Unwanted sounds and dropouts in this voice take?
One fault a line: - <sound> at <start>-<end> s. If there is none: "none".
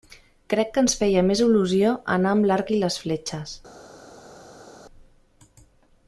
none